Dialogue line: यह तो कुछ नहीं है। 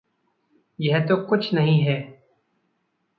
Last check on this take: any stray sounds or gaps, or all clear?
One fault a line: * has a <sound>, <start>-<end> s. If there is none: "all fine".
all fine